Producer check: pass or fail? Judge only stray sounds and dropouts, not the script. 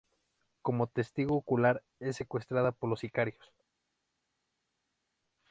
pass